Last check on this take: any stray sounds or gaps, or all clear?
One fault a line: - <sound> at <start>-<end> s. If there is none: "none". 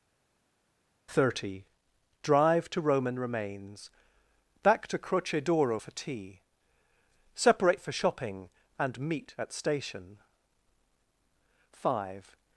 none